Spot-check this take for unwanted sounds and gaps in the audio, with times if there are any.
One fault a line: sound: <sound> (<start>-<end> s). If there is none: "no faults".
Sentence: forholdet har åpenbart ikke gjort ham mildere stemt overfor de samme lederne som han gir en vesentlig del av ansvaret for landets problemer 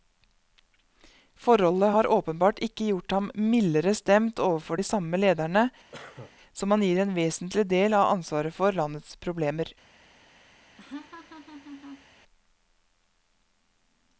sound: cough (5.9-6.3 s)
sound: laugh (10.8-12.1 s)